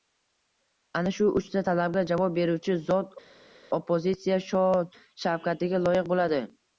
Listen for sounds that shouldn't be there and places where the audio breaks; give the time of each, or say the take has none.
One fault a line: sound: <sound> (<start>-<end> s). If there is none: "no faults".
no faults